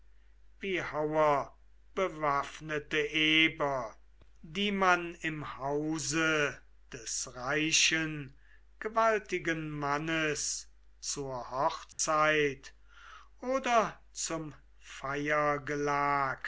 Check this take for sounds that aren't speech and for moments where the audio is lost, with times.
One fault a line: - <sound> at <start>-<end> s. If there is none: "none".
- dropout at 11.9-12.0 s